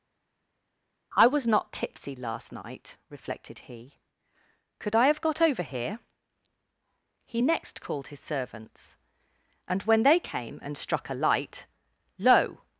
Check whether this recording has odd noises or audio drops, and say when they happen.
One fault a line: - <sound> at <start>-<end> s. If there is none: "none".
none